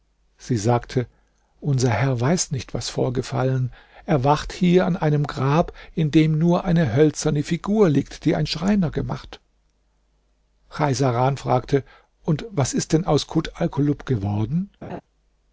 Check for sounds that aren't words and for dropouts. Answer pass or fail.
fail